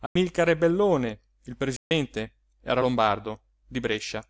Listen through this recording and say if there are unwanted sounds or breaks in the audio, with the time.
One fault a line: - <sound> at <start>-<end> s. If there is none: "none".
- dropout at 0.1-0.2 s
- dropout at 1.8-1.9 s